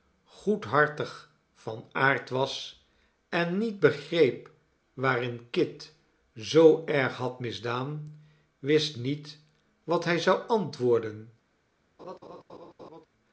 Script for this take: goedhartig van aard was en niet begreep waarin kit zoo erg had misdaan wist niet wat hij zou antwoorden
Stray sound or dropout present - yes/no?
yes